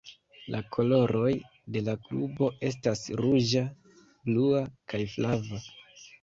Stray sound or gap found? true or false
false